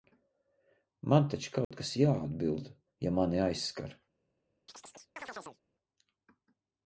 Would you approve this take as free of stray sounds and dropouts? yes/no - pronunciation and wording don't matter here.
no